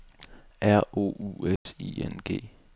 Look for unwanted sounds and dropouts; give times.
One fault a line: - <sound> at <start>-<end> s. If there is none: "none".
- dropout at 1.6-1.7 s